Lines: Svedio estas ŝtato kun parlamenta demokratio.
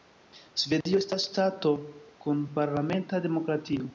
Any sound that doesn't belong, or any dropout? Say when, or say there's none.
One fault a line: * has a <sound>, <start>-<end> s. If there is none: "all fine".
* has a dropout, 0.8-0.9 s